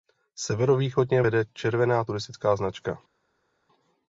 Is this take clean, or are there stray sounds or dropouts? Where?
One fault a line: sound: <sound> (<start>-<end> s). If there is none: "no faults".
no faults